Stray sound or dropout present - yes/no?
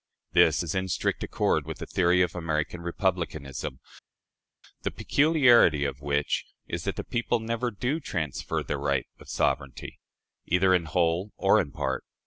no